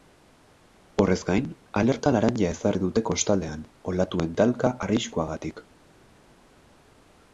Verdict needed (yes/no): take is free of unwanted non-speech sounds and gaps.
yes